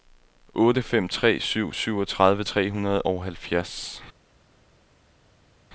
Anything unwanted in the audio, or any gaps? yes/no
no